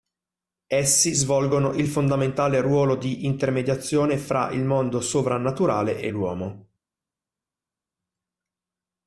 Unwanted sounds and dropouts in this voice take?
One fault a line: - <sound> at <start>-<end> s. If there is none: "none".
none